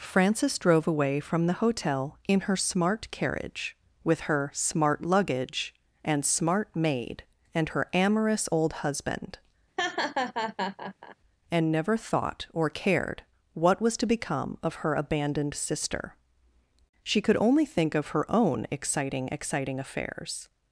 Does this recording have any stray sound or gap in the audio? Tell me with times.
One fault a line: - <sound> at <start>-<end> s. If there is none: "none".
- laugh at 9.8-11.2 s